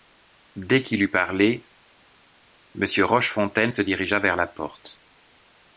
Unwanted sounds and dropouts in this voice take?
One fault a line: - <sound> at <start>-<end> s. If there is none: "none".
none